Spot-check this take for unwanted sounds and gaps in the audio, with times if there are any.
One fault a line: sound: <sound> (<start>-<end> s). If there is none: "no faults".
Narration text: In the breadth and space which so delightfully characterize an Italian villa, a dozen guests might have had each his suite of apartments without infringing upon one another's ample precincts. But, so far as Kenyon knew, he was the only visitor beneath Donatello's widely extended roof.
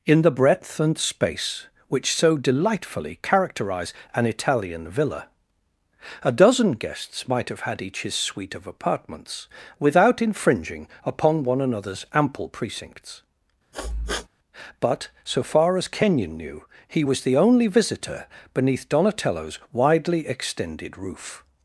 sound: sniff (13.7-14.3 s)